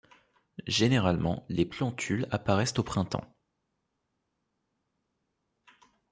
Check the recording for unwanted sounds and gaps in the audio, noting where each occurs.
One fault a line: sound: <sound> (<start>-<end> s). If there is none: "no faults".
no faults